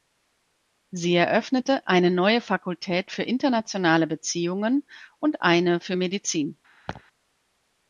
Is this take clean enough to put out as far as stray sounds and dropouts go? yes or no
no